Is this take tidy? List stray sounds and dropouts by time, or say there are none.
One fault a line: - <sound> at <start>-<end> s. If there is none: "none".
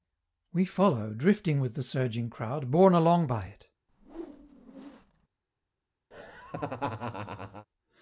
- whoosh at 3.9-5.3 s
- laugh at 6.1-7.7 s